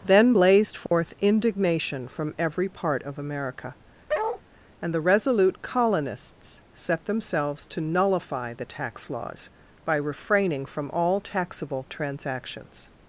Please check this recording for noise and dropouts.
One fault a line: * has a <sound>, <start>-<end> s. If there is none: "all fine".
* has a dropout, 0.9-0.9 s
* has a bark, 4.1-4.4 s